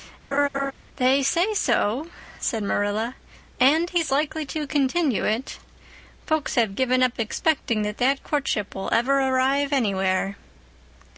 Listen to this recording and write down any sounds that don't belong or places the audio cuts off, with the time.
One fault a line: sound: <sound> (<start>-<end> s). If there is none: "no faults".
sound: laugh (0.3-0.7 s)